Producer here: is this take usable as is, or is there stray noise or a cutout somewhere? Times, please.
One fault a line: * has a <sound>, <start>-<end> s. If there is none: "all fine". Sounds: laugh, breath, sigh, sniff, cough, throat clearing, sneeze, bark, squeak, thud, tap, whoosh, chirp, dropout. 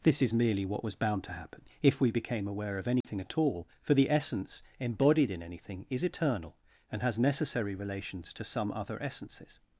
* has a dropout, 3.0-3.0 s